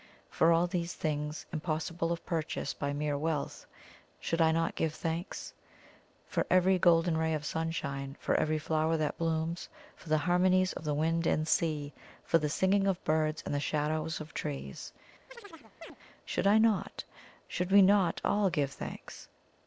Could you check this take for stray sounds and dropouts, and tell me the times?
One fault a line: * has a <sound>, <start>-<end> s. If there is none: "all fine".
* has a chirp, 15.3-16.0 s